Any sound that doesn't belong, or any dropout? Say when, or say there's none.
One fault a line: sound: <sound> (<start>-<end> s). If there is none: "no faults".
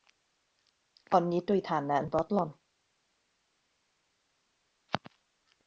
no faults